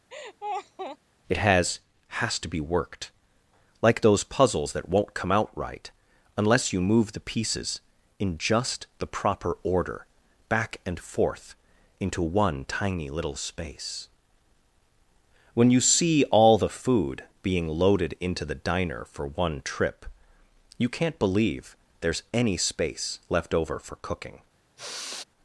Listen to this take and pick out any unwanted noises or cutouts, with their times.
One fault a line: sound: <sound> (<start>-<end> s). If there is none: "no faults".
sound: laugh (0.1-1.0 s)
sound: sigh (24.8-25.2 s)